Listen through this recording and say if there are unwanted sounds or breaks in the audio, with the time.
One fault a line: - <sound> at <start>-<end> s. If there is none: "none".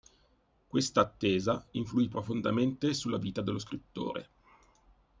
none